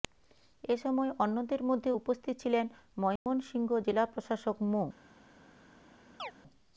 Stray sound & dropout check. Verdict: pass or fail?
fail